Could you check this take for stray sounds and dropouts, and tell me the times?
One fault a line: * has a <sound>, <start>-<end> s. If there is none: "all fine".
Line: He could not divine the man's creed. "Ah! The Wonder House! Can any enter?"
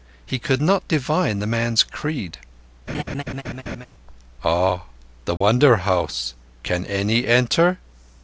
* has a laugh, 2.9-3.9 s
* has a dropout, 5.4-5.4 s